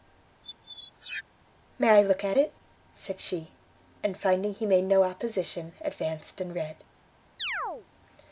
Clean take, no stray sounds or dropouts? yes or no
no